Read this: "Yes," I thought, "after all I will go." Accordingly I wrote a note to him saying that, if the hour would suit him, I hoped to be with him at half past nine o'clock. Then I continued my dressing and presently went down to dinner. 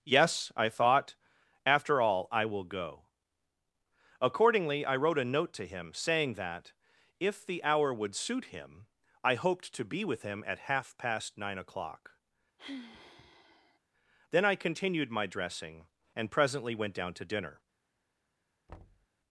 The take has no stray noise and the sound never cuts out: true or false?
false